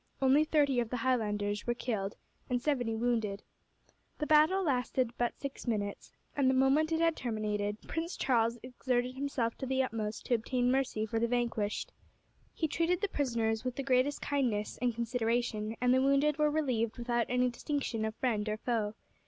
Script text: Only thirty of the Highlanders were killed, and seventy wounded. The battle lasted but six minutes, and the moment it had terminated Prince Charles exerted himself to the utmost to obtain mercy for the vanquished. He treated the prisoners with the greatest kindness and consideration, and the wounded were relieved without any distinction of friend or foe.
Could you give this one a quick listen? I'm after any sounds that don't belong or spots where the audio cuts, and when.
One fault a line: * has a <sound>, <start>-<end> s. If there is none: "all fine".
all fine